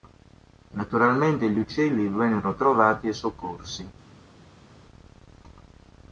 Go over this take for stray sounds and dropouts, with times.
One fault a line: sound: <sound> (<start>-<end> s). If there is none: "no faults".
no faults